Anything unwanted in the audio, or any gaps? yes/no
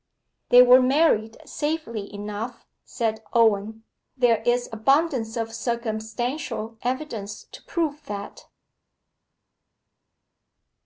no